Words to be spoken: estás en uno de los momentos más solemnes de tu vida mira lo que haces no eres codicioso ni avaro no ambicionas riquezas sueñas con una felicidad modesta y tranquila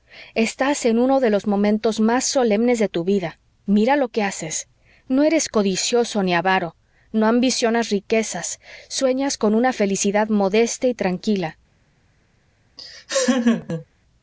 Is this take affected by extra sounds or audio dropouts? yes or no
yes